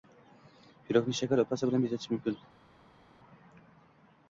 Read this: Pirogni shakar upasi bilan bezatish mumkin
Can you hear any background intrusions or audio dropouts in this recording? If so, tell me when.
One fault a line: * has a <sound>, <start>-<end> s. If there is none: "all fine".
all fine